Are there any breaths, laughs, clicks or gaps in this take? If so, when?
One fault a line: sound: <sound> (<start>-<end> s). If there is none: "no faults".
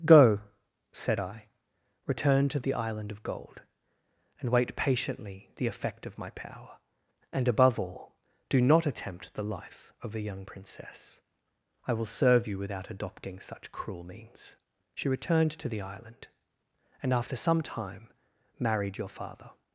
no faults